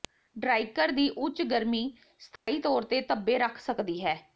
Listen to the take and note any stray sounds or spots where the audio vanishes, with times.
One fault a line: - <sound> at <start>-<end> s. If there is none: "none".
- dropout at 2.4-2.5 s